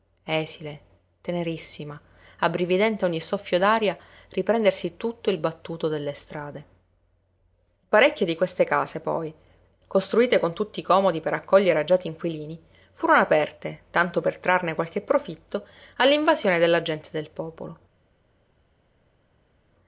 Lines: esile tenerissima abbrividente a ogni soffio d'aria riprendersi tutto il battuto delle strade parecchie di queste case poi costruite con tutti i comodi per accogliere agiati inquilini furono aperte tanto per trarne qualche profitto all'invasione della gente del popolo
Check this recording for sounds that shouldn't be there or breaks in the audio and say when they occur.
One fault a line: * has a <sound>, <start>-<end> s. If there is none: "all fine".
all fine